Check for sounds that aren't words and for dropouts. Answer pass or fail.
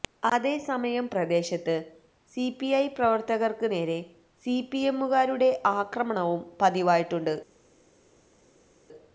pass